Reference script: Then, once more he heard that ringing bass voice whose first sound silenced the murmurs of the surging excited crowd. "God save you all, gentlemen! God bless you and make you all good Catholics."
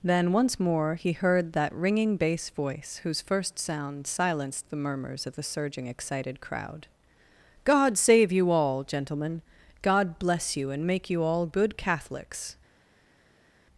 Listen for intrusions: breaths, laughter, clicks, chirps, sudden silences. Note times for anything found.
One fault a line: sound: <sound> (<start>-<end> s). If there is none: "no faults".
no faults